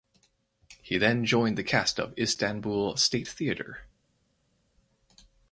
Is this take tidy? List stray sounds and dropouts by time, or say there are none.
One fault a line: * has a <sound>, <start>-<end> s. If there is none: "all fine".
all fine